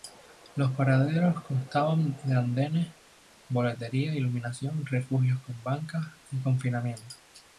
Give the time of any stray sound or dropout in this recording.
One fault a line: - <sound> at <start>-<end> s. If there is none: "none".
none